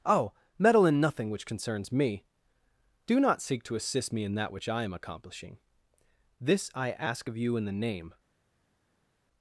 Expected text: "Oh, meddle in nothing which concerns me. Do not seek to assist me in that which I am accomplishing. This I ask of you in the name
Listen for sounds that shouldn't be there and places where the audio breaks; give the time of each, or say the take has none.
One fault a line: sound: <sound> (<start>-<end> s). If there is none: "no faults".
no faults